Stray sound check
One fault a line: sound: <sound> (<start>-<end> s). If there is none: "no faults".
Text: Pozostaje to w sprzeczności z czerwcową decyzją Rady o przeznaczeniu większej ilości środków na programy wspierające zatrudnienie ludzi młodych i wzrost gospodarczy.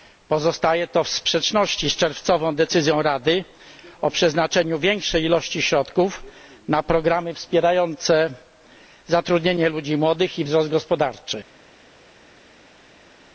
no faults